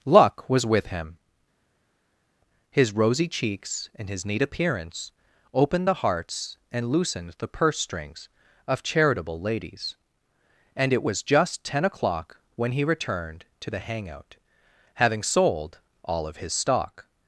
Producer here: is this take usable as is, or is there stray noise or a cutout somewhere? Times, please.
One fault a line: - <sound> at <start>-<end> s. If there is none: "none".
none